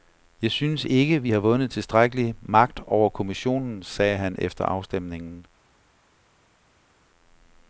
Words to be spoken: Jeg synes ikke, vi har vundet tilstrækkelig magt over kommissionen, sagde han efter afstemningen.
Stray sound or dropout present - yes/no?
no